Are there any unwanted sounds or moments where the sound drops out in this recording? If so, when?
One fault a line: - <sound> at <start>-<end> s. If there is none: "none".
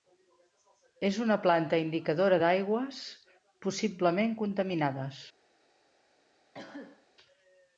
- cough at 6.5-7.1 s